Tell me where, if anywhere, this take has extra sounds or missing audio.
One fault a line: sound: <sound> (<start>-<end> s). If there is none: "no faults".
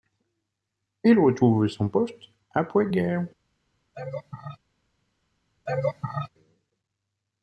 sound: laugh (3.9-4.6 s)
sound: laugh (5.7-6.3 s)